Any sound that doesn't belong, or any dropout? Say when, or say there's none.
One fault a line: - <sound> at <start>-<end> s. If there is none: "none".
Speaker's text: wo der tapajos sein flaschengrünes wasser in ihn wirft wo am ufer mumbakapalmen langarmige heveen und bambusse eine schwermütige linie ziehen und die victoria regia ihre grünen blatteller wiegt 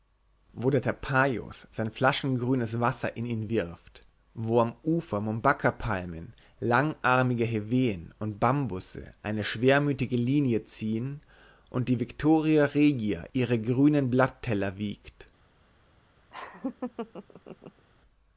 - laugh at 16.3-17.8 s